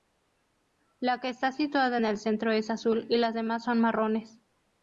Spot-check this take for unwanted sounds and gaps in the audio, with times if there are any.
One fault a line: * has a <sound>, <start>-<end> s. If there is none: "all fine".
all fine